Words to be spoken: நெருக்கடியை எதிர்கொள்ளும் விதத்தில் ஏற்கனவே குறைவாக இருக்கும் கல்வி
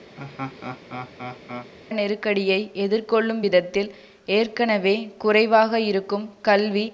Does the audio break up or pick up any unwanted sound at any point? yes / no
yes